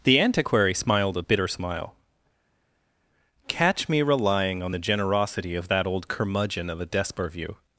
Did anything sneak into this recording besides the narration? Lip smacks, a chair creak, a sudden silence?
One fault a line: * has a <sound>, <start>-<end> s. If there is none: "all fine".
all fine